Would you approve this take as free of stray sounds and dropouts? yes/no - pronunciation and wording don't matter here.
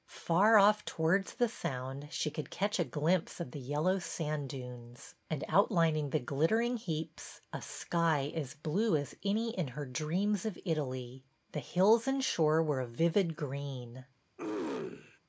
no